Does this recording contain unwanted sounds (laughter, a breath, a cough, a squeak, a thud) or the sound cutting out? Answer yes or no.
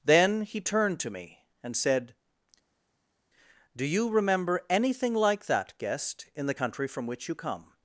no